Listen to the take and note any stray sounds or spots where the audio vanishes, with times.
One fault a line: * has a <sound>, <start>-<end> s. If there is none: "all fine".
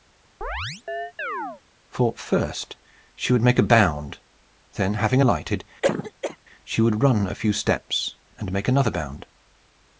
* has a chirp, 0.4-1.6 s
* has a cough, 5.8-6.4 s